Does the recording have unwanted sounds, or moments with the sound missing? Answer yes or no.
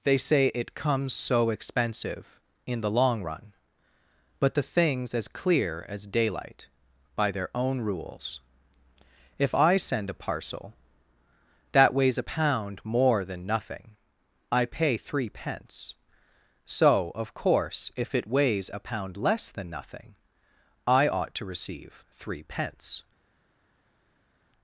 no